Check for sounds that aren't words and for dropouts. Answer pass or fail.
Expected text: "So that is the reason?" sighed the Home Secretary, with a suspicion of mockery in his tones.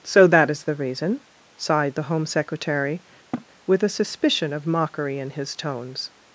fail